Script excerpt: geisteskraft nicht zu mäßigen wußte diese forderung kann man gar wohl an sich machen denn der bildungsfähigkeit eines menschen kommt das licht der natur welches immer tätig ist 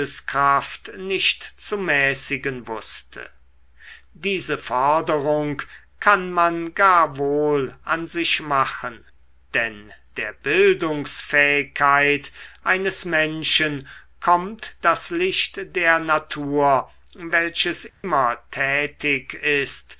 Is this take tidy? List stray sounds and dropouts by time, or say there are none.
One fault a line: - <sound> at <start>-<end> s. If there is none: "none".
- dropout at 17.9-18.0 s